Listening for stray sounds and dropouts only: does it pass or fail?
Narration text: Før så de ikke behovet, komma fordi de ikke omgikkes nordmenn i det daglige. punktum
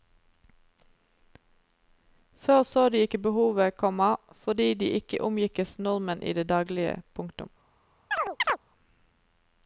fail